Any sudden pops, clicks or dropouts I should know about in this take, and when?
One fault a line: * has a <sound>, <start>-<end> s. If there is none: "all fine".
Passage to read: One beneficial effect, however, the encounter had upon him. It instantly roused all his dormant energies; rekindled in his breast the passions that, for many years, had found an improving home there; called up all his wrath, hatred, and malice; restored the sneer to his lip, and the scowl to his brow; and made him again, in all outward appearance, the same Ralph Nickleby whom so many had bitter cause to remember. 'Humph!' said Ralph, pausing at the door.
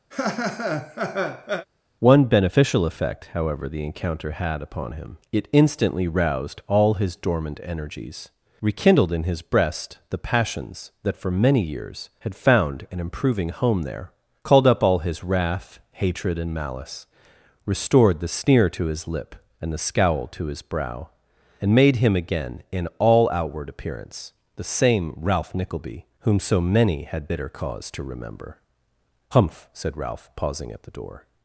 * has a laugh, 0.1-1.7 s